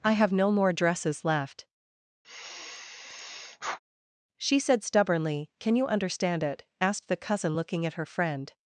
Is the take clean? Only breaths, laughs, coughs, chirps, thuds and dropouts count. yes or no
no